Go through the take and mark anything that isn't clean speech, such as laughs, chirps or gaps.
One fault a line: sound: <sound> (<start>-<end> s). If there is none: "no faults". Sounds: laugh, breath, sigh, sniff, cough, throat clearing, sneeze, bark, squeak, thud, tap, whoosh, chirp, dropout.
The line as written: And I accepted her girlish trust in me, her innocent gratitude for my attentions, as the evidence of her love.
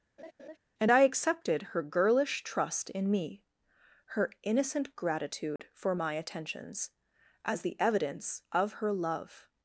sound: laugh (0.2-0.6 s)
sound: dropout (5.6-5.6 s)